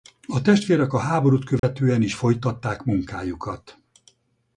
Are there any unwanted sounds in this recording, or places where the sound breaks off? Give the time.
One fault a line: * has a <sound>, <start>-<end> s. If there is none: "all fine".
* has a dropout, 1.6-1.6 s